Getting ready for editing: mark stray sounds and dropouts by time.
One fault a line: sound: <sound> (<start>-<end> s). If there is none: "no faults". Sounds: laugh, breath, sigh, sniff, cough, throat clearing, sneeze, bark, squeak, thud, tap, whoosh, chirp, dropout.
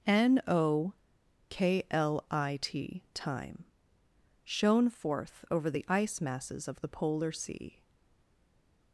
no faults